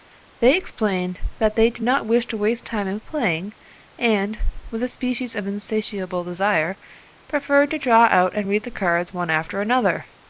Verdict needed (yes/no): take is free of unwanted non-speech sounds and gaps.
yes